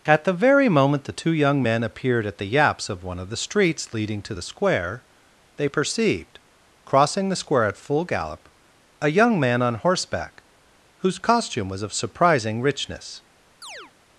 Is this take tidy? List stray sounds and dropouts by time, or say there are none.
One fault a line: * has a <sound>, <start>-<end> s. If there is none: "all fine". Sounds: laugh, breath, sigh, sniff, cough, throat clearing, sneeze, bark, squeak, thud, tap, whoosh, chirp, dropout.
* has a chirp, 13.6-13.9 s